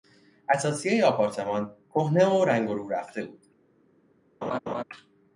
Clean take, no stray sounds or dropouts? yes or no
no